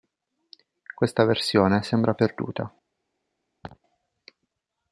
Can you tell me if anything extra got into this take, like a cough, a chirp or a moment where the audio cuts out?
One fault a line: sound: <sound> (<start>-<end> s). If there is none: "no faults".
sound: laugh (3.6-3.8 s)